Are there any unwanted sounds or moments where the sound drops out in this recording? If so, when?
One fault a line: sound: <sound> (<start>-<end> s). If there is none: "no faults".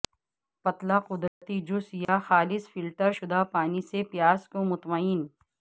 sound: dropout (1.3-1.4 s)
sound: dropout (2.0-2.1 s)